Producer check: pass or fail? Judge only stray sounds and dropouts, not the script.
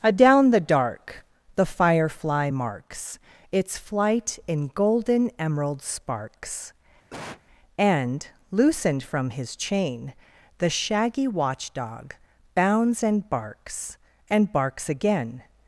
fail